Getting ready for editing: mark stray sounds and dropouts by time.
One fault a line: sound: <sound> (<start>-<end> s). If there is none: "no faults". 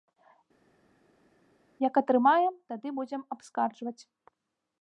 no faults